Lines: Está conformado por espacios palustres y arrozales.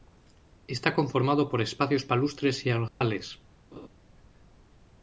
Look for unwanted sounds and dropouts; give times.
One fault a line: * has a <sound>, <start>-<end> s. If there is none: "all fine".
* has a dropout, 2.9-3.0 s
* has a laugh, 3.7-3.9 s